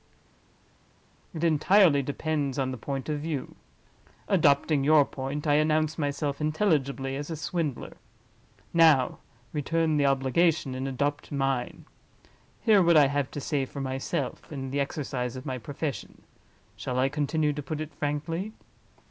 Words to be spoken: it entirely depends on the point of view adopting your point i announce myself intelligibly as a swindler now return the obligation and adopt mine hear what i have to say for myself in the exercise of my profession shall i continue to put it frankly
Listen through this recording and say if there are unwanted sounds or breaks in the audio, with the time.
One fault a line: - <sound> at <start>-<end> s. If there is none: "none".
none